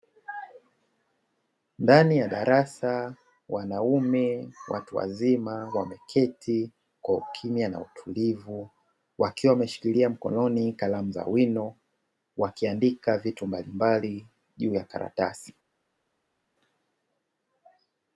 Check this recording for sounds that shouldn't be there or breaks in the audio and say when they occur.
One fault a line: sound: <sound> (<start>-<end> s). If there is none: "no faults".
no faults